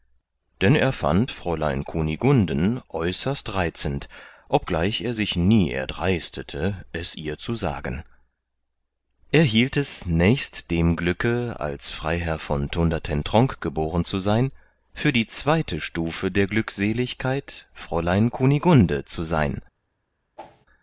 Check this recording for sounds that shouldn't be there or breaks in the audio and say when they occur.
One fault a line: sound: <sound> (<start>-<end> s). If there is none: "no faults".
sound: whoosh (20.4-20.7 s)